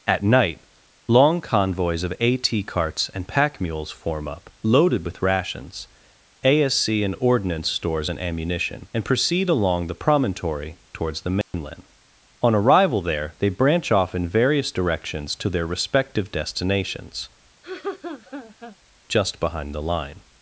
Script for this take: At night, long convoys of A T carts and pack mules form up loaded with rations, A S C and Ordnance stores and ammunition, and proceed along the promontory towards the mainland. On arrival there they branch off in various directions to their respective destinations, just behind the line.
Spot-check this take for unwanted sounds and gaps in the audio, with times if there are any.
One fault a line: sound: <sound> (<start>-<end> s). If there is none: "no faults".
sound: dropout (11.4-11.5 s)
sound: laugh (17.6-18.8 s)